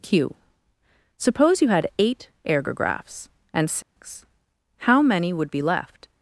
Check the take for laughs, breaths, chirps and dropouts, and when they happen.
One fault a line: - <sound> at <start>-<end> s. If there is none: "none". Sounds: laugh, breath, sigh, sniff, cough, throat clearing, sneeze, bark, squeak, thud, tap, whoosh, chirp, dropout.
- dropout at 3.8-4.0 s